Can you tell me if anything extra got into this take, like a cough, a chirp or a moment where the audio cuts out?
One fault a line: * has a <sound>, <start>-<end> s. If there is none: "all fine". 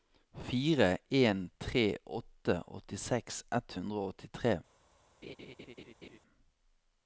* has a laugh, 5.2-6.2 s